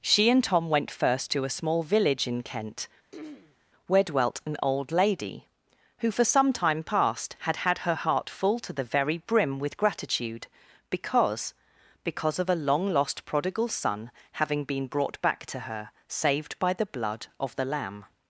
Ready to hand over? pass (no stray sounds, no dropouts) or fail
fail